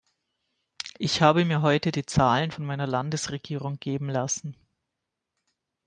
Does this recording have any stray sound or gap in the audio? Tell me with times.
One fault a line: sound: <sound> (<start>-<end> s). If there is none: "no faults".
no faults